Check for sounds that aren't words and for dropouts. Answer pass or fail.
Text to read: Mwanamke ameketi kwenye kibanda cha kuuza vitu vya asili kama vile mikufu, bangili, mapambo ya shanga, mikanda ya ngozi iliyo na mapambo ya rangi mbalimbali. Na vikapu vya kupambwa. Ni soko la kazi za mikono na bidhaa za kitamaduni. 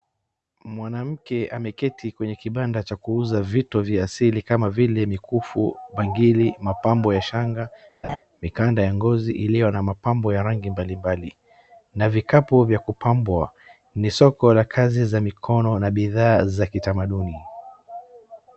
fail